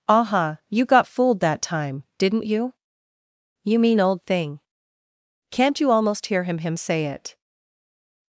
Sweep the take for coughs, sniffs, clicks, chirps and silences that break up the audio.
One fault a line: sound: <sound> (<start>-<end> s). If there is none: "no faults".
no faults